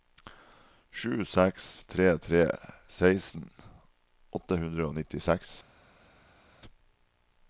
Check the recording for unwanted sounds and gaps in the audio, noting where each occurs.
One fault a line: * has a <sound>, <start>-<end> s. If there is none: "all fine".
all fine